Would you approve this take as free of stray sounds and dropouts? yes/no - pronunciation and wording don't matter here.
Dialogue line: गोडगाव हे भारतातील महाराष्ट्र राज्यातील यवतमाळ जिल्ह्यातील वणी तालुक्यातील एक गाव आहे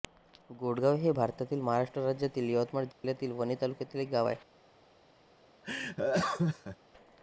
no